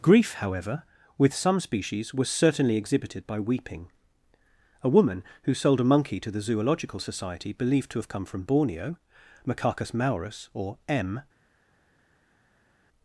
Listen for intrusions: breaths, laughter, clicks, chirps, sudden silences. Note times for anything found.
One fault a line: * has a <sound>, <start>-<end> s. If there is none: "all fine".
all fine